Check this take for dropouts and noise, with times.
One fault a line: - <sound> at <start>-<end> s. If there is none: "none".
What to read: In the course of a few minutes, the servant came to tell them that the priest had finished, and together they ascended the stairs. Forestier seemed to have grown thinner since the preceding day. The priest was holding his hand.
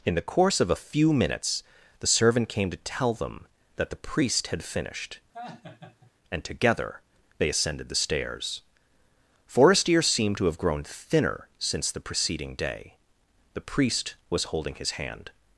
- laugh at 5.3-6.1 s